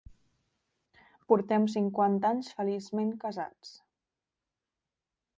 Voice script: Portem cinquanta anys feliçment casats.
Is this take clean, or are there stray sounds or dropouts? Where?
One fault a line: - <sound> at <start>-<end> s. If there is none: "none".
none